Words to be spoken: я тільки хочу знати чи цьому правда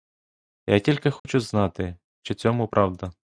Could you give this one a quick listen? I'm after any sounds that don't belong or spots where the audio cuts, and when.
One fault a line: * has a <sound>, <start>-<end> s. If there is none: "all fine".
* has a dropout, 1.2-1.3 s